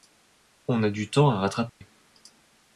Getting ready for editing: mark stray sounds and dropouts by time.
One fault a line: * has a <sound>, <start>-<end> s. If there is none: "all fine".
* has a dropout, 1.7-1.8 s